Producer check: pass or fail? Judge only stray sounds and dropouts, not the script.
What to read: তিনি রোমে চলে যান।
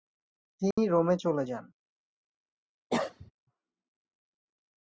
fail